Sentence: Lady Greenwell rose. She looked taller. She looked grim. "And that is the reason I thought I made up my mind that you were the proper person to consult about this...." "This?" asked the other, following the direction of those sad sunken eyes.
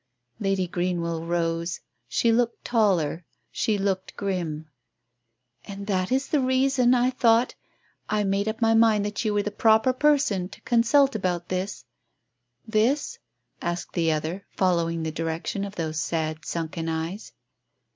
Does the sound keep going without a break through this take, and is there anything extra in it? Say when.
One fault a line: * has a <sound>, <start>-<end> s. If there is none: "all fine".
all fine